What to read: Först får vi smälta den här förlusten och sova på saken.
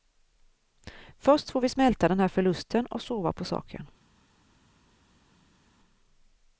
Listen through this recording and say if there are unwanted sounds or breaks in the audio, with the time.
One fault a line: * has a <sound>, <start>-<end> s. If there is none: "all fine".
all fine